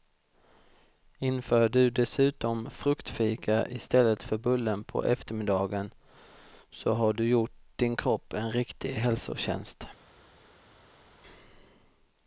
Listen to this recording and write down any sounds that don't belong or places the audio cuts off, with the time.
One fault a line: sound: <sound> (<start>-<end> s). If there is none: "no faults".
no faults